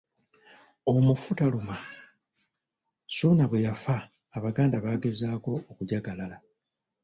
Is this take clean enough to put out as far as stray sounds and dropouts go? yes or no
yes